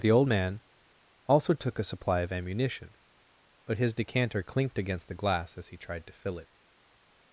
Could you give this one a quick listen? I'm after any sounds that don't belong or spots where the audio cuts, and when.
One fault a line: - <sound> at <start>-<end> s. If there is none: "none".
none